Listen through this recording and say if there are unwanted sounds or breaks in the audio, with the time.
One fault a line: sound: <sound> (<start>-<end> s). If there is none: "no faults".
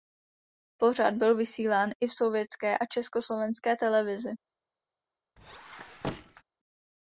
sound: squeak (5.4-6.4 s)